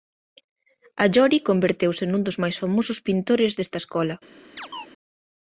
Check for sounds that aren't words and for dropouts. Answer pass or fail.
fail